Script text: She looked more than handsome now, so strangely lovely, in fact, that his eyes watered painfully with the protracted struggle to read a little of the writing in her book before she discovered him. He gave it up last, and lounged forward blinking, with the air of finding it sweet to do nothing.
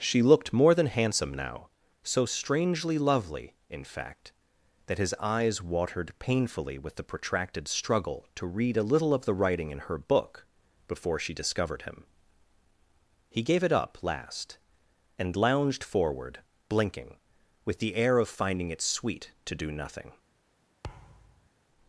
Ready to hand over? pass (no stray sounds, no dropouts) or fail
fail